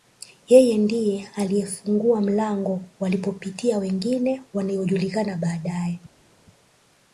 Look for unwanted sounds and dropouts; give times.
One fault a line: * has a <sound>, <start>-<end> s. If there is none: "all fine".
all fine